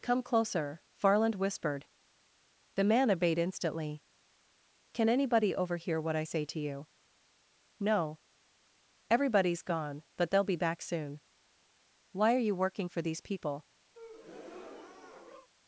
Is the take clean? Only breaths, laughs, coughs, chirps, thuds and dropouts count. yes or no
no